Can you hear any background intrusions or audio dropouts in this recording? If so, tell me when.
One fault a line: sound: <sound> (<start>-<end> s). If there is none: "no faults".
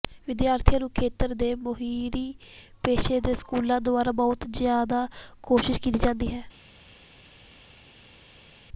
no faults